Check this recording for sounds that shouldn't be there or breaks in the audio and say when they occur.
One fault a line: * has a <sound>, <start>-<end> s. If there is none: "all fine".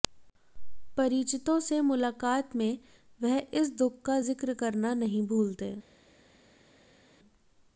all fine